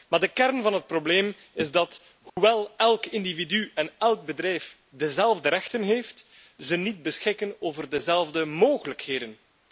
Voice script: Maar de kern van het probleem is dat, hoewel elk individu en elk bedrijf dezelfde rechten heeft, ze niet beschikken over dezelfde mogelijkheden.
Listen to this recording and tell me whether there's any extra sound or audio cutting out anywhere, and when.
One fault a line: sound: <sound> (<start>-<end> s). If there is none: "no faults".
sound: dropout (2.3-2.4 s)